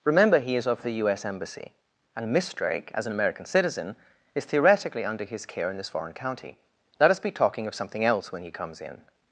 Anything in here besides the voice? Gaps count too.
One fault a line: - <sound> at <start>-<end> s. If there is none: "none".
none